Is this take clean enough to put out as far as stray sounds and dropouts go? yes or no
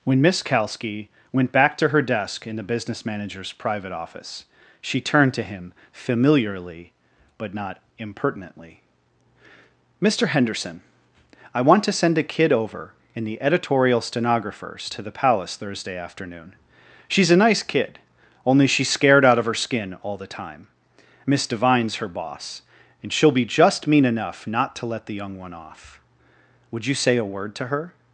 yes